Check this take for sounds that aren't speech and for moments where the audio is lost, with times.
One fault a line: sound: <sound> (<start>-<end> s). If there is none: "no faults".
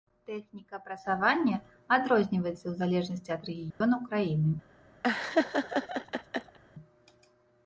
sound: dropout (3.7-3.8 s)
sound: laugh (5.0-6.6 s)